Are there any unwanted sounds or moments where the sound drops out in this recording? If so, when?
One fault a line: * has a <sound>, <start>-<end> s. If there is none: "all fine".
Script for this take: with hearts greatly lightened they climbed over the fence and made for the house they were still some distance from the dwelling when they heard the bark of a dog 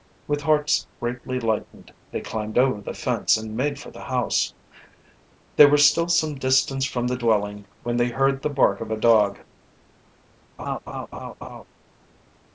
* has a laugh, 10.6-11.6 s